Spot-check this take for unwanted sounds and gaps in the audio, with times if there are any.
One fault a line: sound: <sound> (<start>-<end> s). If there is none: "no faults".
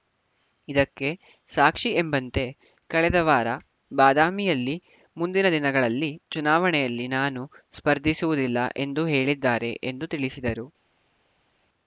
no faults